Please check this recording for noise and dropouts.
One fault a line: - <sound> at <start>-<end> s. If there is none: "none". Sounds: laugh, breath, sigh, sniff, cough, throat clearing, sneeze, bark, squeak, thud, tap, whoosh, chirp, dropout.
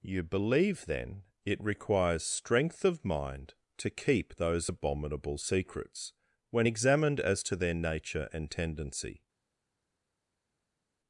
none